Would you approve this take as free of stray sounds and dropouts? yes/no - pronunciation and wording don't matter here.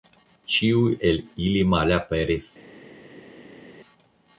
yes